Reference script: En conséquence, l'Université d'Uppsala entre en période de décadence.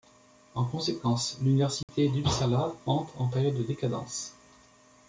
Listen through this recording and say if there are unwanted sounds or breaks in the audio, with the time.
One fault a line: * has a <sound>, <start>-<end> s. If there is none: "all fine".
* has a dropout, 1.8-1.9 s